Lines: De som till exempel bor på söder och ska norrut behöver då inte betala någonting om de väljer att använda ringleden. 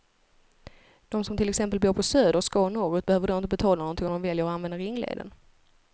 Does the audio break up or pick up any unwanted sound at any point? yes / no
no